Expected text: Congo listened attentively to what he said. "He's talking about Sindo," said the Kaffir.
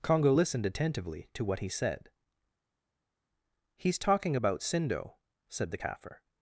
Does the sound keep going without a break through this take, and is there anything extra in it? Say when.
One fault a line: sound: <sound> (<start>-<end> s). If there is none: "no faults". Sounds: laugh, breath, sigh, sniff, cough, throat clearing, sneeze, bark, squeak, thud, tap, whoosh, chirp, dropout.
no faults